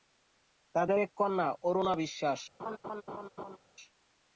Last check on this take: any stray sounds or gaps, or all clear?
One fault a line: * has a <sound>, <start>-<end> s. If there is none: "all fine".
* has a laugh, 2.6-3.6 s